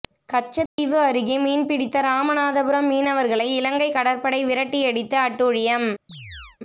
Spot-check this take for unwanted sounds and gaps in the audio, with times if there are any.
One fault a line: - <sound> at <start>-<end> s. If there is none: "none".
- dropout at 0.7-0.8 s
- chirp at 6.1-6.6 s